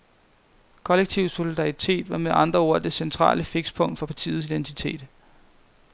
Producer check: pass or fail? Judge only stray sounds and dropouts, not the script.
pass